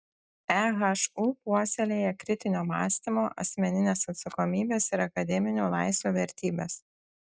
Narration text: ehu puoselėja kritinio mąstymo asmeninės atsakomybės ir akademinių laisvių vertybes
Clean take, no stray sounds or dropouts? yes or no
yes